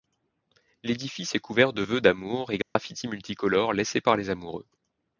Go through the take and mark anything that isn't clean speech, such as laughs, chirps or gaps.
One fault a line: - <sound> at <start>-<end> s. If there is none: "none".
- dropout at 2.6-2.8 s